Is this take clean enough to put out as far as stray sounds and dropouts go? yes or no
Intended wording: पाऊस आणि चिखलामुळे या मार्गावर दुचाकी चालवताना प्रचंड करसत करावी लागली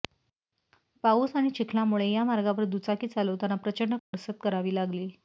no